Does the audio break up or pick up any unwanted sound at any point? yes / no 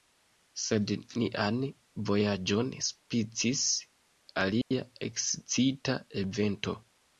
yes